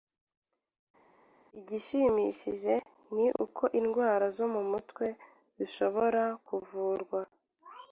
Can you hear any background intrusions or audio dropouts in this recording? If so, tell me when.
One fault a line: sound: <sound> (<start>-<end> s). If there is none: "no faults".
no faults